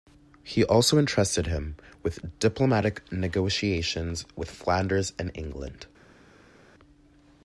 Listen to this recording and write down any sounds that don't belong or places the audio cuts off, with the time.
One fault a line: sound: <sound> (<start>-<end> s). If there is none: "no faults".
no faults